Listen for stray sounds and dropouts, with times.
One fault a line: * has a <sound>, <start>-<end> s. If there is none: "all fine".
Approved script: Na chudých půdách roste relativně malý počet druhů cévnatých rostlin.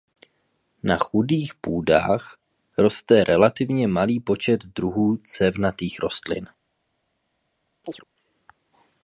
* has a chirp, 7.8-8.0 s